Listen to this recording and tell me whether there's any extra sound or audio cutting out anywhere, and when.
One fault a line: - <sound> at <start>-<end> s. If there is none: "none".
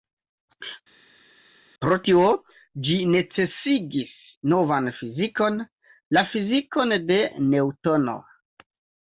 none